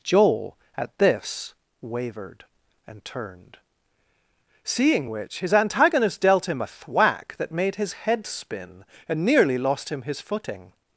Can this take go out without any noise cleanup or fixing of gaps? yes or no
yes